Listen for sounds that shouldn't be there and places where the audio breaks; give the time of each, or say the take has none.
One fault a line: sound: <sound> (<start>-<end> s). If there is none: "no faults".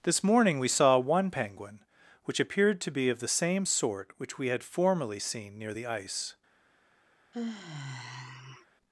sound: sigh (7.3-8.7 s)